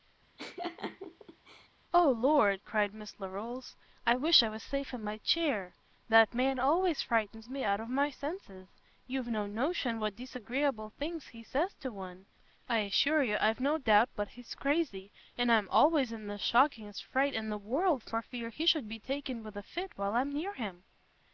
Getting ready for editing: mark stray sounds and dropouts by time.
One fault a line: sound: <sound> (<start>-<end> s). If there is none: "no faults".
sound: laugh (0.4-1.7 s)